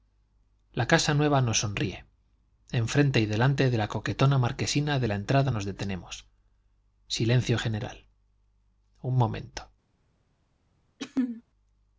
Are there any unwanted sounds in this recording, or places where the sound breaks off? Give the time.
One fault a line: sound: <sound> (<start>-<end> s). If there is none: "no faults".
sound: throat clearing (11.0-11.4 s)